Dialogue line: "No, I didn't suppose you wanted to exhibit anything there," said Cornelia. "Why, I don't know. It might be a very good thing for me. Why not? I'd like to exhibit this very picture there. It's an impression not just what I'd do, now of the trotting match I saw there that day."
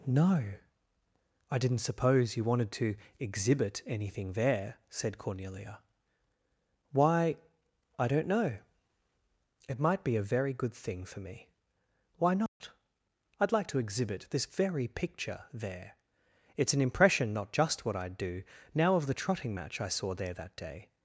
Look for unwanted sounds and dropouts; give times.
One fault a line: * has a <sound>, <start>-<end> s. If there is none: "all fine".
* has a dropout, 12.5-12.6 s